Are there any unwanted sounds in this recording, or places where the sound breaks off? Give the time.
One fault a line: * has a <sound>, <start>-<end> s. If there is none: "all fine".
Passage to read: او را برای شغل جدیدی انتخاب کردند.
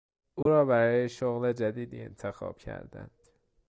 * has a dropout, 0.4-0.5 s